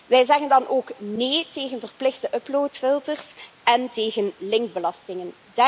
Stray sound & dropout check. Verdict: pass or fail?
pass